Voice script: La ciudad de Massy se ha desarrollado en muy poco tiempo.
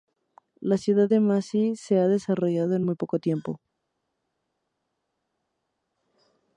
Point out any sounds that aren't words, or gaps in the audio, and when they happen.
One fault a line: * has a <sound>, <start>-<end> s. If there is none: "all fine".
all fine